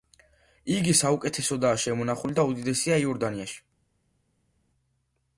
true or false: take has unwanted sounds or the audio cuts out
false